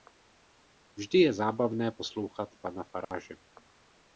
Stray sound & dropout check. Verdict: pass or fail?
fail